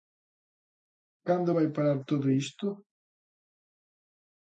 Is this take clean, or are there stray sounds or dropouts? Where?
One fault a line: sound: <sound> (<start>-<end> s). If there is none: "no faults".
no faults